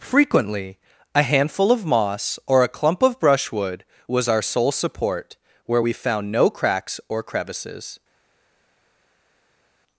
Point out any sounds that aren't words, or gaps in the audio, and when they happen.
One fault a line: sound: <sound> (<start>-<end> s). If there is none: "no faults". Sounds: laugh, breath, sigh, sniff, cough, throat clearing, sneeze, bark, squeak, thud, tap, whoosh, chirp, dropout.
no faults